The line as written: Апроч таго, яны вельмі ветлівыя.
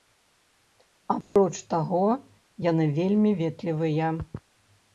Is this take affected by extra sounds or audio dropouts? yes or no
yes